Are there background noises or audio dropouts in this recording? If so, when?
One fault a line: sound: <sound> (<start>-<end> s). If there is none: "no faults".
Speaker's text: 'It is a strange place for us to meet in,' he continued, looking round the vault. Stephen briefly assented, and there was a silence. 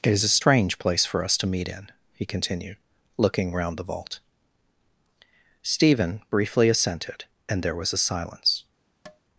sound: tap (9.1-9.2 s)